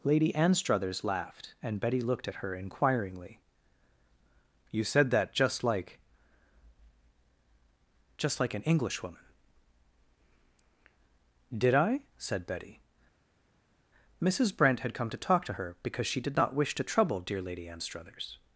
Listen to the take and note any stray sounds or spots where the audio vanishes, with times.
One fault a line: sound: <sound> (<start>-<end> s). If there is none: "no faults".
no faults